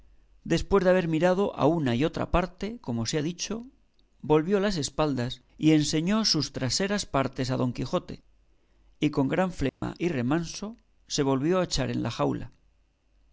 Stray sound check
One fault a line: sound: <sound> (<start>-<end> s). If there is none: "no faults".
sound: dropout (9.7-9.8 s)